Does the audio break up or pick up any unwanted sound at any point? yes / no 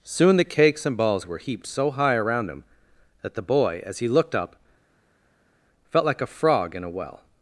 no